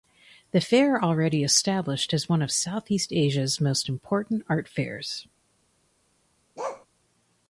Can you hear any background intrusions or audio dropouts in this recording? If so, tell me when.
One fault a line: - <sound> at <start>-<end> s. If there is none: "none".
- bark at 6.6-6.9 s